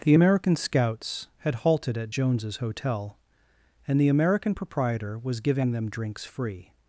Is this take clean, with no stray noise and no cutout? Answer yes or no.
yes